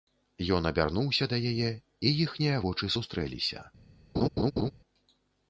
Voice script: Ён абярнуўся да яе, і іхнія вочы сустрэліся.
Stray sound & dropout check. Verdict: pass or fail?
fail